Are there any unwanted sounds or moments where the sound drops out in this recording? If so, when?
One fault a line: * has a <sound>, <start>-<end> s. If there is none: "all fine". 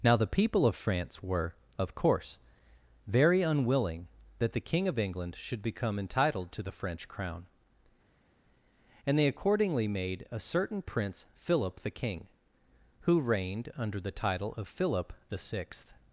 all fine